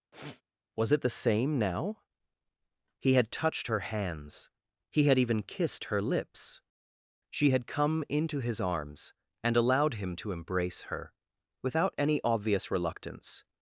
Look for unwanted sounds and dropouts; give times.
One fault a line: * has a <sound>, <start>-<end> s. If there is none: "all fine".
* has a sniff, 0.1-0.4 s